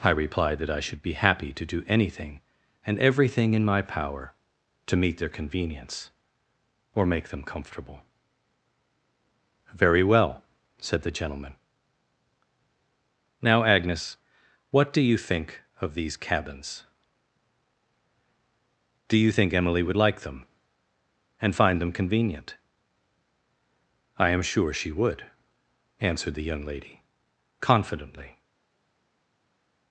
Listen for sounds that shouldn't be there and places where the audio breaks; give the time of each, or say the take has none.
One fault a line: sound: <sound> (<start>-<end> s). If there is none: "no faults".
no faults